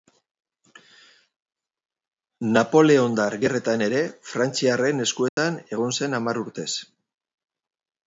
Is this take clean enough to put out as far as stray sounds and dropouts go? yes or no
no